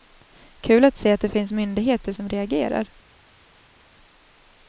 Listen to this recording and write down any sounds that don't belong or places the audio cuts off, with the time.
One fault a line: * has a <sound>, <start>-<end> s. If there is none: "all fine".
all fine